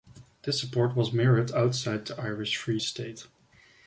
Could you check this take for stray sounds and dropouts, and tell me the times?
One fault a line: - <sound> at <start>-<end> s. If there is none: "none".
none